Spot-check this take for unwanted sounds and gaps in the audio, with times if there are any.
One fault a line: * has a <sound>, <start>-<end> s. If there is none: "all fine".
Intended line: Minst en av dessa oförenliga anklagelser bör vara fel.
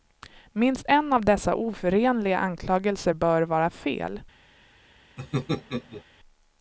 * has a laugh, 5.2-6.0 s